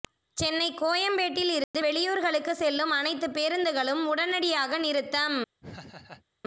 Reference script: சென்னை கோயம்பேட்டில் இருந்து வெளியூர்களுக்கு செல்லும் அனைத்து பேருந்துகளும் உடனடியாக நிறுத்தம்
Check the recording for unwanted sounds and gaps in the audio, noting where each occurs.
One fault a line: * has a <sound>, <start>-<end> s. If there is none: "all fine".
* has a dropout, 1.6-1.7 s
* has a laugh, 5.6-6.3 s